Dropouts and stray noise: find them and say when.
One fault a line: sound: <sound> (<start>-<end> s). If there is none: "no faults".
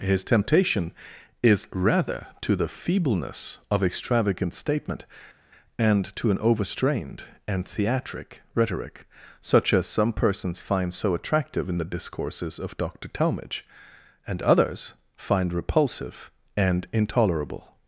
no faults